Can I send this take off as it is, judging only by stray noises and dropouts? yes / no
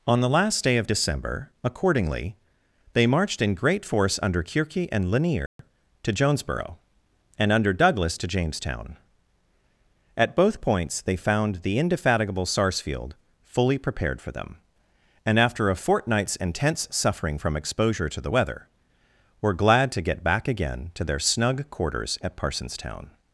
no